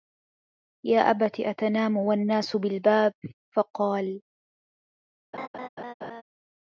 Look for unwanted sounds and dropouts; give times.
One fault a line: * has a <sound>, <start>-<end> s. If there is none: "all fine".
* has a laugh, 5.3-6.2 s